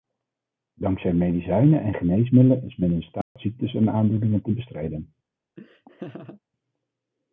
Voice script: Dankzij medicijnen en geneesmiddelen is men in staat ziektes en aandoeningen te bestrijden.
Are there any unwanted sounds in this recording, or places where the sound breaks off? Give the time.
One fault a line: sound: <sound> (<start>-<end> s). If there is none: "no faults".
sound: dropout (3.2-3.4 s)
sound: laugh (5.6-6.4 s)